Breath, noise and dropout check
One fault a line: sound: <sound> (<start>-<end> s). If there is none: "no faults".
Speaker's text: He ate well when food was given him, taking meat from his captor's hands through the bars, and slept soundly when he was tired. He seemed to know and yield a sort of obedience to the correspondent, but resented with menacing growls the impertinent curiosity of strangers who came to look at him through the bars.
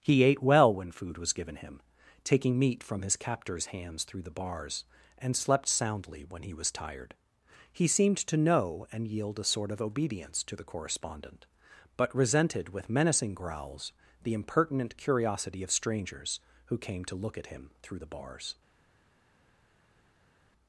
no faults